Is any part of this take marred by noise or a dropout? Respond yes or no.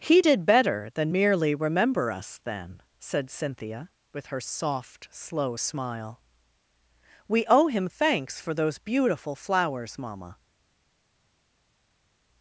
no